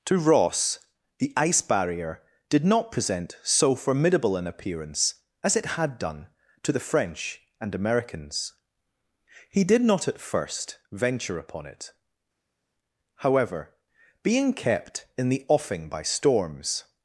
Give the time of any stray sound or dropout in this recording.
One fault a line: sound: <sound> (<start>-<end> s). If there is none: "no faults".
no faults